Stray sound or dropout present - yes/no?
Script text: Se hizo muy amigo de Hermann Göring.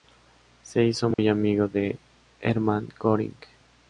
yes